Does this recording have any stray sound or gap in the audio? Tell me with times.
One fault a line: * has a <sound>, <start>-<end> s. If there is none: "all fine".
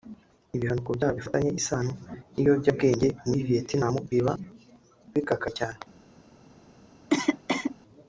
* has a cough, 7.1-7.8 s